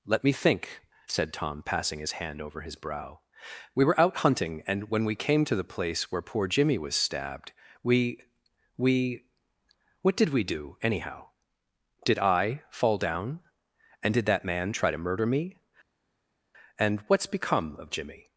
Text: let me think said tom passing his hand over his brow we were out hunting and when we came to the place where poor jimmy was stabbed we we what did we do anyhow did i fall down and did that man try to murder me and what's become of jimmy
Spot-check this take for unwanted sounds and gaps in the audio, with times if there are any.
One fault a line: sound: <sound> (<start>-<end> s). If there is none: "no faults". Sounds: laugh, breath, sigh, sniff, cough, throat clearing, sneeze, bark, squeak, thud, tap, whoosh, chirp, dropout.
no faults